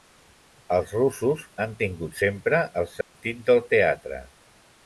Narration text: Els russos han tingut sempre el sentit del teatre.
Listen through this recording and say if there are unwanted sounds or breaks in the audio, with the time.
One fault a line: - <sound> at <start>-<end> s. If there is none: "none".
- dropout at 3.0-3.1 s